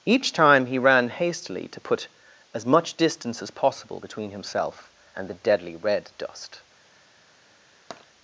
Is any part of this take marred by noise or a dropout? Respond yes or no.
yes